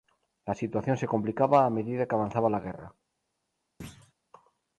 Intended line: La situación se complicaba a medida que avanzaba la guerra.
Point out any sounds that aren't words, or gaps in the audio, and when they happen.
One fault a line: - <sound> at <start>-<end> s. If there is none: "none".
- thud at 3.8-4.1 s